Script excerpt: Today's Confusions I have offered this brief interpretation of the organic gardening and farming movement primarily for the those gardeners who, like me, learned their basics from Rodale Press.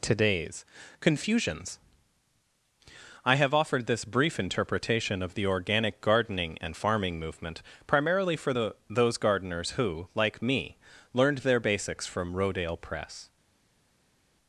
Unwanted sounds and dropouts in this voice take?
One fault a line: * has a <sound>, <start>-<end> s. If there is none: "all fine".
all fine